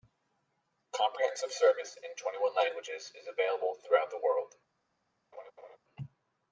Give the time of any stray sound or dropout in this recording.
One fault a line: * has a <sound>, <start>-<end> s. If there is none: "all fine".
* has a laugh, 5.3-5.8 s